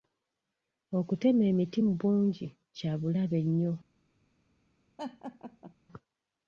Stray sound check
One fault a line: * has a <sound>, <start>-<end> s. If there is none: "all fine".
* has a laugh, 5.0-5.7 s